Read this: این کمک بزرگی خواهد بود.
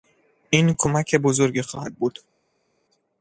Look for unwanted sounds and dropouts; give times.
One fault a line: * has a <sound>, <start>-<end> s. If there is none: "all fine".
all fine